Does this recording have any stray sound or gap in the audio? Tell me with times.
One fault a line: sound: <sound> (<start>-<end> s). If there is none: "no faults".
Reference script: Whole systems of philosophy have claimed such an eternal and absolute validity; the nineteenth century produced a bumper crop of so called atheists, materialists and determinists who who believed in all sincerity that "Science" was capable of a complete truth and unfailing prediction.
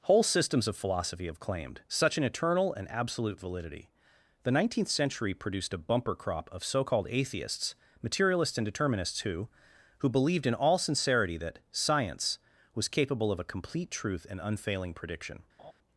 sound: laugh (15.6-15.7 s)